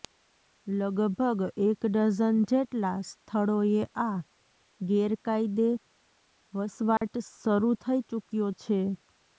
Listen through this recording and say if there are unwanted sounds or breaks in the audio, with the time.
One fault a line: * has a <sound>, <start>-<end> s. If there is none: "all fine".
* has a dropout, 7.0-7.0 s